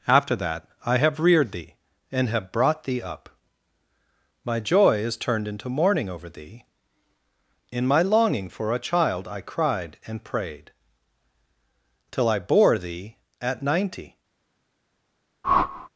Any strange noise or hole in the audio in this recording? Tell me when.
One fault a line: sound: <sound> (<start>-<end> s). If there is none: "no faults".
sound: whoosh (15.4-15.9 s)